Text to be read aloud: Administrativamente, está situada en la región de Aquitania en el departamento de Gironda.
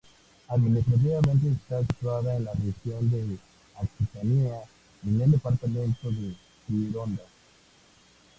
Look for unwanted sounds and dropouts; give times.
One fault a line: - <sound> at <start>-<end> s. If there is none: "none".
none